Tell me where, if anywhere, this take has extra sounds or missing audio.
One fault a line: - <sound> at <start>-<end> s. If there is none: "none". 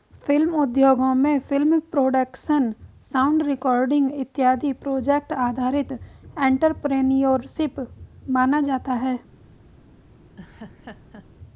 - laugh at 10.4-11.3 s